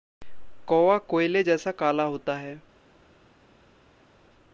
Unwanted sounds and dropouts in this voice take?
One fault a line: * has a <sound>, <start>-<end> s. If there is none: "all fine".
all fine